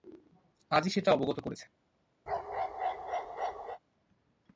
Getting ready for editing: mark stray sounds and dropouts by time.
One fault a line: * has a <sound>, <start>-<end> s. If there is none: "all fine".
* has a bark, 2.3-3.8 s